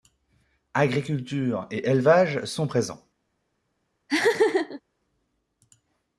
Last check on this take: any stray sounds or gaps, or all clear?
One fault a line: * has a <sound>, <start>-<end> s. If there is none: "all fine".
* has a laugh, 4.1-4.8 s